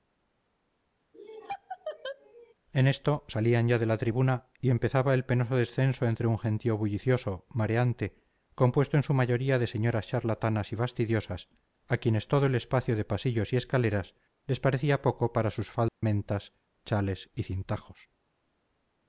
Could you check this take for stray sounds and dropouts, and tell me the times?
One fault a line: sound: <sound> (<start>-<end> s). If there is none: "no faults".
sound: laugh (1.1-2.5 s)
sound: dropout (15.9-16.0 s)